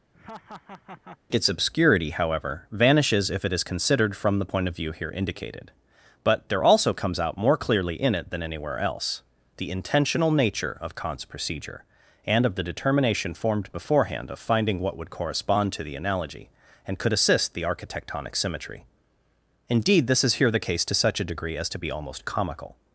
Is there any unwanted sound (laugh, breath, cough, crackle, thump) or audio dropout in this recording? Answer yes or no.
yes